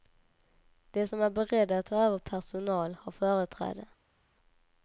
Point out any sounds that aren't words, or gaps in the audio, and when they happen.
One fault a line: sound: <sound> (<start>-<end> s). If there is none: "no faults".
no faults